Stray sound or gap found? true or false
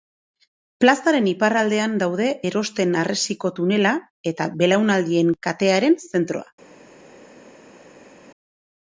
false